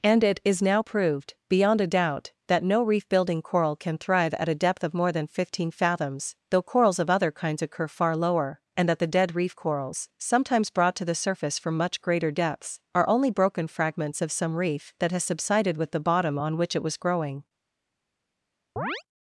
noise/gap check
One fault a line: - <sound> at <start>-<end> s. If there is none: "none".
- chirp at 18.8-19.0 s